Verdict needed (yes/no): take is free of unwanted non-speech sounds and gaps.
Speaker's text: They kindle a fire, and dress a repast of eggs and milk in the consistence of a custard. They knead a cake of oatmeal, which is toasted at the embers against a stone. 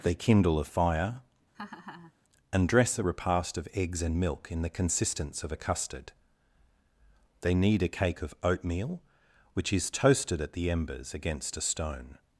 no